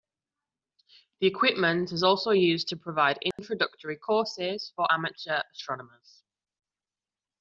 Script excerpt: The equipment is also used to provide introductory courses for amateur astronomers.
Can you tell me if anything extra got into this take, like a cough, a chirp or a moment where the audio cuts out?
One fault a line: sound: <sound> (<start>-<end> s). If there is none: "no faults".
sound: dropout (3.3-3.4 s)